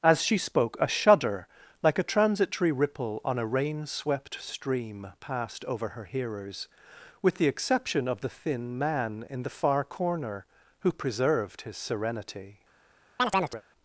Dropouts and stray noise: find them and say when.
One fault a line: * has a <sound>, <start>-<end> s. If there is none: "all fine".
* has a chirp, 13.2-13.6 s